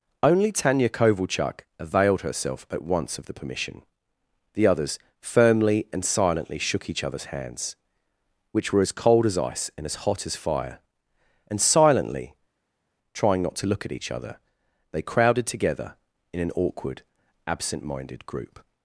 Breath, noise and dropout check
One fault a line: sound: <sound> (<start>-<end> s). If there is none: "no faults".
no faults